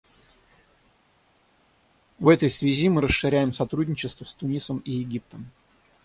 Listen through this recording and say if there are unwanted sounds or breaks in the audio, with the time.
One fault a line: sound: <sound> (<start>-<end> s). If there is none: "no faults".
no faults